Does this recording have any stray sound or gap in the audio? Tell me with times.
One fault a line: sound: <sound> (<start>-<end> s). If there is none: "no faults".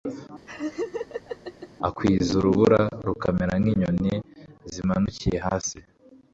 sound: laugh (0.5-1.7 s)